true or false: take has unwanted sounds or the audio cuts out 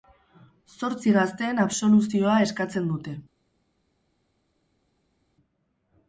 false